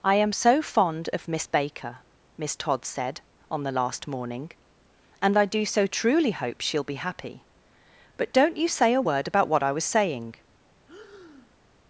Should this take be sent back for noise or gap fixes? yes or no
yes